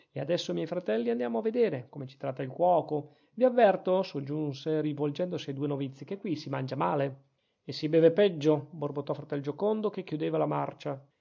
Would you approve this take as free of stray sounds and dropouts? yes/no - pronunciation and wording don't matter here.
yes